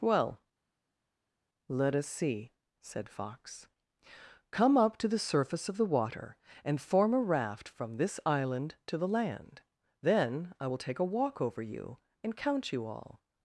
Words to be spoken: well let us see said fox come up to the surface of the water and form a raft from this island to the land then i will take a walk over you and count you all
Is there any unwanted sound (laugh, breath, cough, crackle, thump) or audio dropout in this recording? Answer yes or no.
no